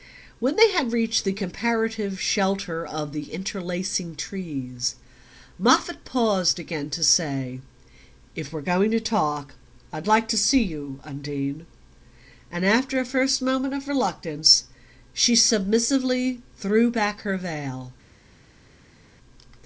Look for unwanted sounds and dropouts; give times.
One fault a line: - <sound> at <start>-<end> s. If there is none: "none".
none